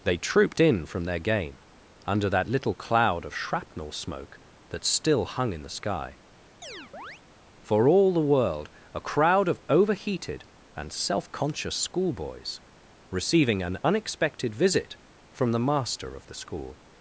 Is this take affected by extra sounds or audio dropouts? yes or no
yes